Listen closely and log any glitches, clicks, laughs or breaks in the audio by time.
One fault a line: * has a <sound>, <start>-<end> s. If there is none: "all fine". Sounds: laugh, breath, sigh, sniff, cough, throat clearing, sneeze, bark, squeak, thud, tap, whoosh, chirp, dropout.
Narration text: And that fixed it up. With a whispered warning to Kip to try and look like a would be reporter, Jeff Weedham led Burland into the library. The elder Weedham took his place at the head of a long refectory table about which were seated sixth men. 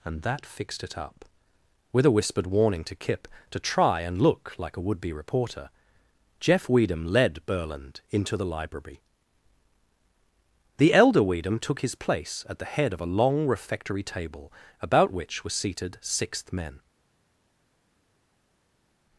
all fine